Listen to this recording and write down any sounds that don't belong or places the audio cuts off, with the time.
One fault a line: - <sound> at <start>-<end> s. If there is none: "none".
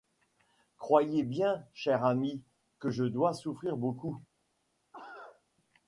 - cough at 4.9-5.4 s